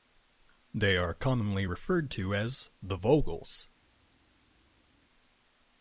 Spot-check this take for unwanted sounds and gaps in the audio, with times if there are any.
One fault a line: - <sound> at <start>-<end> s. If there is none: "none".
none